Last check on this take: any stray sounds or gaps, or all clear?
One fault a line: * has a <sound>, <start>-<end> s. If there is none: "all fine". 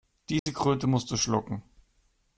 * has a dropout, 0.4-0.5 s